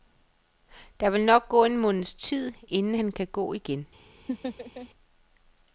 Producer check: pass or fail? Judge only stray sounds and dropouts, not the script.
fail